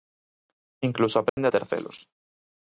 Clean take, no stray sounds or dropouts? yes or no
no